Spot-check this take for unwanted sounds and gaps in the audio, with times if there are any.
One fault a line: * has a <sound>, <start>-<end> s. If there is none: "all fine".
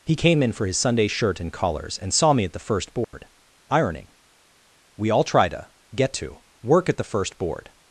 * has a dropout, 3.0-3.1 s